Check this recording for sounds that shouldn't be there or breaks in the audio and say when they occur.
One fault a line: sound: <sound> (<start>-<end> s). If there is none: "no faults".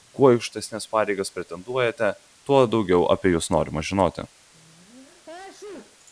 sound: sneeze (4.5-6.0 s)